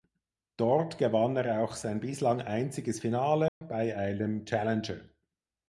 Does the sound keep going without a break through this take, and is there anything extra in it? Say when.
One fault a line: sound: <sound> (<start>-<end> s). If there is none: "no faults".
sound: dropout (3.5-3.6 s)